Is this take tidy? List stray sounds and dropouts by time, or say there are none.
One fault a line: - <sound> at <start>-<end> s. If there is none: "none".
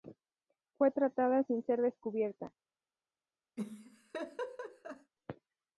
- laugh at 3.6-5.1 s